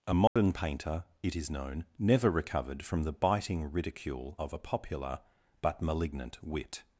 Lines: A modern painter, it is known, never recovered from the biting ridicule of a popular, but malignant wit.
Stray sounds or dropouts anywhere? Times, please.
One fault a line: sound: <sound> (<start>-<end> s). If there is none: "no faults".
sound: dropout (0.3-0.4 s)